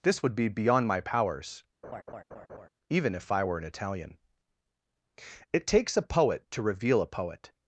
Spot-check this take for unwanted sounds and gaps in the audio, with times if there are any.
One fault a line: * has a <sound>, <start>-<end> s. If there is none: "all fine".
* has a laugh, 1.8-2.7 s